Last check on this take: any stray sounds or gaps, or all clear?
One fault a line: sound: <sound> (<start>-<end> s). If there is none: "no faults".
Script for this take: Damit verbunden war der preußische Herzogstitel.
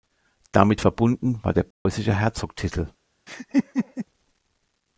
sound: dropout (1.7-1.9 s)
sound: laugh (3.3-4.1 s)